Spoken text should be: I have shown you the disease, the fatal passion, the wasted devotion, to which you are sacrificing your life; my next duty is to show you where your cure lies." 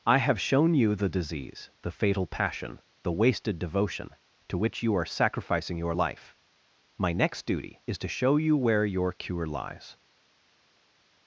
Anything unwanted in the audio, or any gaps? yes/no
no